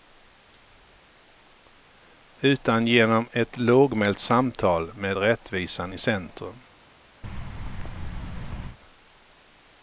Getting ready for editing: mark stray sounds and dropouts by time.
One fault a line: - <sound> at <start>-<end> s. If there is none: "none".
- thud at 7.2-8.8 s